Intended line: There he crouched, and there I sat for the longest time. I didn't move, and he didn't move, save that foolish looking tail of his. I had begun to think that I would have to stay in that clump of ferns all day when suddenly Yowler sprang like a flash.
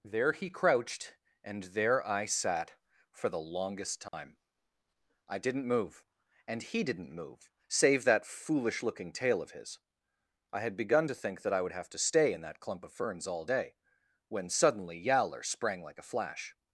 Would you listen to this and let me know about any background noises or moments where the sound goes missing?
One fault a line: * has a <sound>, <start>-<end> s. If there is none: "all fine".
* has a dropout, 4.1-4.1 s